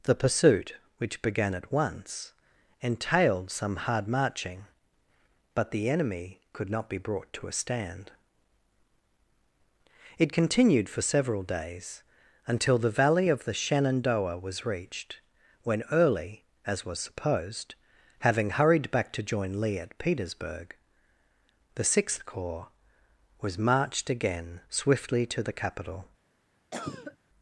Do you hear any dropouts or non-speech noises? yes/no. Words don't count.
yes